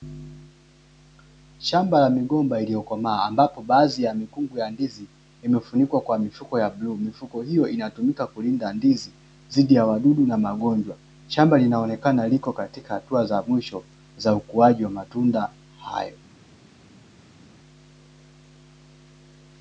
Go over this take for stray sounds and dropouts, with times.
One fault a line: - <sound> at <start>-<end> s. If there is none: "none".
none